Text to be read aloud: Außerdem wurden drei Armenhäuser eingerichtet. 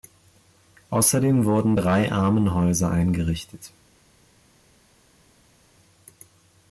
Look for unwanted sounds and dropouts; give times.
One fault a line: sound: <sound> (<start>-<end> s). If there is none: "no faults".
no faults